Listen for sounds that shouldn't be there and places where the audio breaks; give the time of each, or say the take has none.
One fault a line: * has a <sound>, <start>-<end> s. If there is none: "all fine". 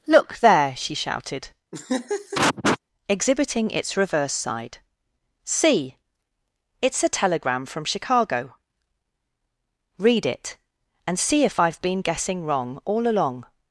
* has a laugh, 1.7-2.8 s